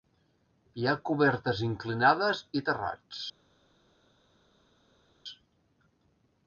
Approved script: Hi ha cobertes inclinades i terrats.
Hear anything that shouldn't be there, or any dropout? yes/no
no